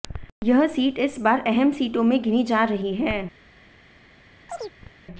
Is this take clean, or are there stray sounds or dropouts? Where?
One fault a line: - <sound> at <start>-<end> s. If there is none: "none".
- chirp at 4.5-4.9 s